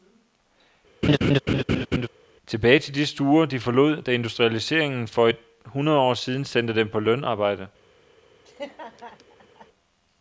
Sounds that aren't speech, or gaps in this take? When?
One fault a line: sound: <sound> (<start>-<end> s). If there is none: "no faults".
sound: laugh (1.0-2.1 s)
sound: laugh (8.4-9.7 s)